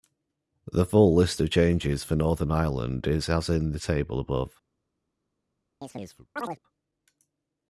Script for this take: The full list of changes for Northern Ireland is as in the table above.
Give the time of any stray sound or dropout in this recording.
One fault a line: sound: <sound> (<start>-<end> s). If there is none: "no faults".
sound: chirp (5.8-6.6 s)